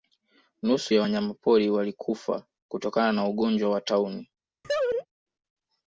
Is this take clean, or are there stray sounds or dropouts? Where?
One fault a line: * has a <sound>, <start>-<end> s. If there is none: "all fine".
* has a laugh, 4.6-5.1 s